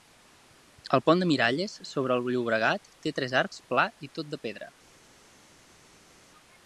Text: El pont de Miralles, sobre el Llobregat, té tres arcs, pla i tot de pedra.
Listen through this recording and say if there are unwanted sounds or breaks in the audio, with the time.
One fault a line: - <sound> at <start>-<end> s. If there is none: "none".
none